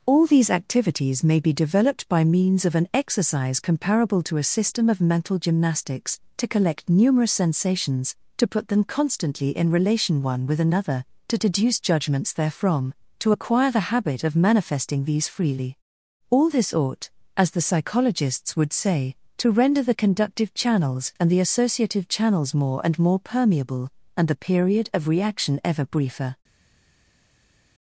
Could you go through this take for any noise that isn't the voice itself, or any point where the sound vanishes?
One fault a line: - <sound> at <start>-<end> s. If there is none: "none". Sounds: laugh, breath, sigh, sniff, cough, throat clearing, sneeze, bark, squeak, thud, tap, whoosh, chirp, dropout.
none